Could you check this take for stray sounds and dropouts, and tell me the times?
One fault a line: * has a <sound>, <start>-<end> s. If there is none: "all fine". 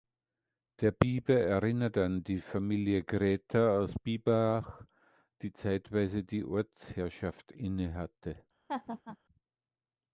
* has a laugh, 8.7-9.2 s